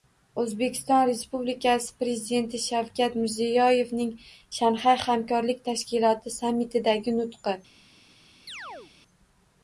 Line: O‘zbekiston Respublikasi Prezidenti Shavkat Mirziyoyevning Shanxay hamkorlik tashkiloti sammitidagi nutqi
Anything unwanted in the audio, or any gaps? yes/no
yes